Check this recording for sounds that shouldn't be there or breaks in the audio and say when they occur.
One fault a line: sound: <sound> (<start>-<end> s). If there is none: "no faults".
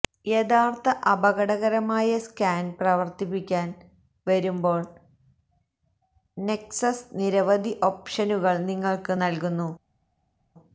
no faults